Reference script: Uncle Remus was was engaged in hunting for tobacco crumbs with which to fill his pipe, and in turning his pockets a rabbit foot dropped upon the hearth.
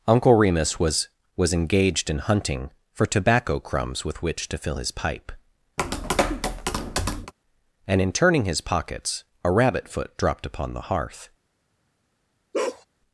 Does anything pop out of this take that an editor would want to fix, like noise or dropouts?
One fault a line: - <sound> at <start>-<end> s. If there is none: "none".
- tap at 5.8-7.3 s
- bark at 12.5-12.9 s